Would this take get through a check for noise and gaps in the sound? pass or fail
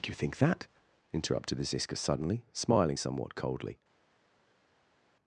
pass